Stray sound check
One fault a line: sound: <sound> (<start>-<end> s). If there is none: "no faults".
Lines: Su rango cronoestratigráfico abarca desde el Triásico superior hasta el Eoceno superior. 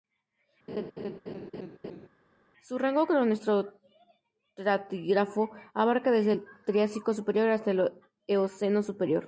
sound: laugh (0.7-2.1 s)